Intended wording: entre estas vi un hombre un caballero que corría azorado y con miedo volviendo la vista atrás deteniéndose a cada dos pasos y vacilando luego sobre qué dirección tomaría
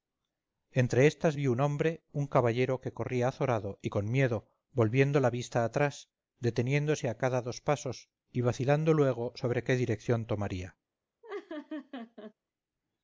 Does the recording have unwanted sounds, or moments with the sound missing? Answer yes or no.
yes